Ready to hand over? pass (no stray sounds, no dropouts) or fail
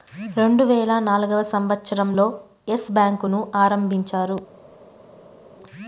pass